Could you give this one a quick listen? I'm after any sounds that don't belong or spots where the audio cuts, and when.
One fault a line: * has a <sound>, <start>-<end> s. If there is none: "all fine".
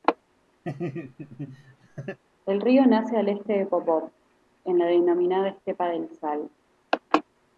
* has a laugh, 0.6-2.2 s